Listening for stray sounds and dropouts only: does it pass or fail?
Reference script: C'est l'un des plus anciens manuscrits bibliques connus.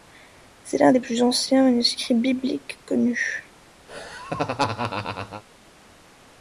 fail